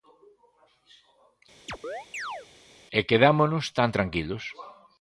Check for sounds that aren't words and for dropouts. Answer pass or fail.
fail